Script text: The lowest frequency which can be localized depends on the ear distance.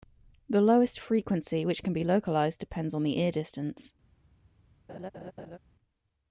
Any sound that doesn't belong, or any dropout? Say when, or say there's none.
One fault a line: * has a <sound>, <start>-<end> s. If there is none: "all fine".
* has a laugh, 4.9-5.6 s